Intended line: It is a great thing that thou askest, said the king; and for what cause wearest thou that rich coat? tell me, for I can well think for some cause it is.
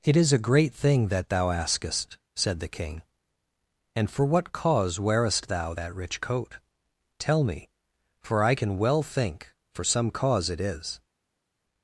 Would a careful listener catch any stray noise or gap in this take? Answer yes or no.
no